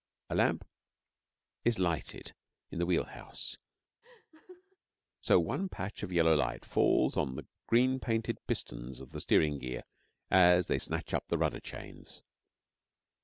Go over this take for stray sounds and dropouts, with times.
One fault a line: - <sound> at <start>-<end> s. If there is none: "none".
- laugh at 4.0-4.8 s